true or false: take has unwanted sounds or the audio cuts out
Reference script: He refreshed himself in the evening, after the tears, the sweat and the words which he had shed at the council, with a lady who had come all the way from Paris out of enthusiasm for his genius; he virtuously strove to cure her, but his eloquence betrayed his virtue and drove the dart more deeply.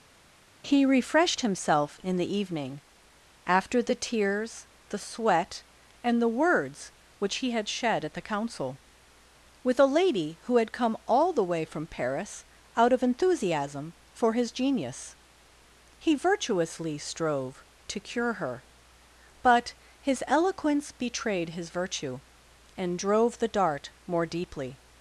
false